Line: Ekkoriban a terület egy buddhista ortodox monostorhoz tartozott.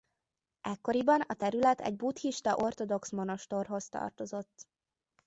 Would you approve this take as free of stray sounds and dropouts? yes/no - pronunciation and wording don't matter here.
yes